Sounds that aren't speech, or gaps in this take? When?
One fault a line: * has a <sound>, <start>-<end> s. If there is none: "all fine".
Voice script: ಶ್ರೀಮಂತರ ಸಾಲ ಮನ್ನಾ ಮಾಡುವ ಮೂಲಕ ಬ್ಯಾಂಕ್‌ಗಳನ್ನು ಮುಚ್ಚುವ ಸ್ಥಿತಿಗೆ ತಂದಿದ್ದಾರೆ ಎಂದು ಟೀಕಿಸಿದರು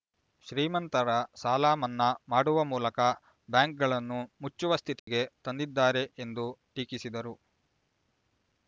* has a dropout, 5.0-5.1 s